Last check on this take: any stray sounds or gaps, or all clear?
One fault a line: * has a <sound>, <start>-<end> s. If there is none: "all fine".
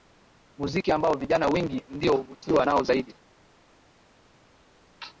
all fine